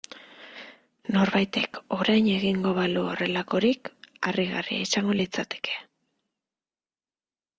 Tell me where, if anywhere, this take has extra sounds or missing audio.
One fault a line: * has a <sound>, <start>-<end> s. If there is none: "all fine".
all fine